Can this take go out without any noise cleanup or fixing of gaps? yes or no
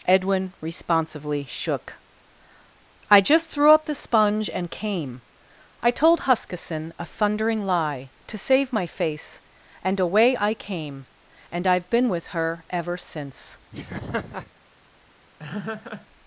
no